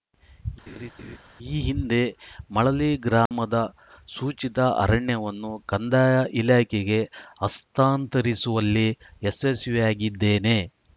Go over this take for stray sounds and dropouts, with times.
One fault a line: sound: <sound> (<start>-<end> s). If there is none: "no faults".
sound: laugh (0.7-1.2 s)
sound: dropout (3.3-3.3 s)